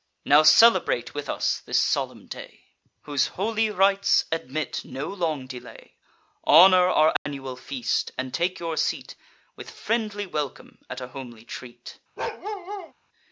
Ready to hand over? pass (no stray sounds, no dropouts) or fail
fail